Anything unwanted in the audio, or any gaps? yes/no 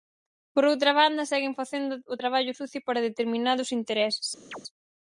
yes